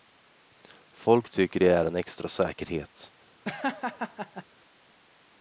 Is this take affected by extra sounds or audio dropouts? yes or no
yes